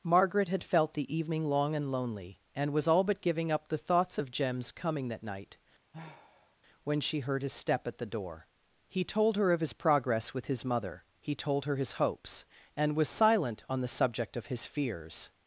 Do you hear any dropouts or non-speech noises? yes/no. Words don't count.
yes